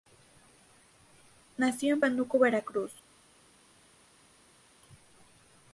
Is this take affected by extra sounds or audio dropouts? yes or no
no